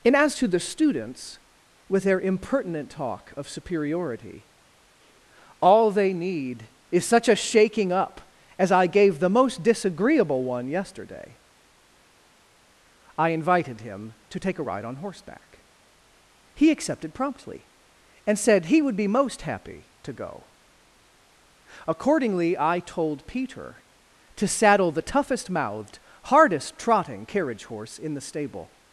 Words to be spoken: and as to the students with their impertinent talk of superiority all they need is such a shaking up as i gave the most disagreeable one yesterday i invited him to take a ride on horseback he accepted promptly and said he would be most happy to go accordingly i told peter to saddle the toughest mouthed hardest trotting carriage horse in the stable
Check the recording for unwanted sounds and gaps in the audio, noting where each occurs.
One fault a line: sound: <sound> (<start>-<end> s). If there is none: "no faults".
no faults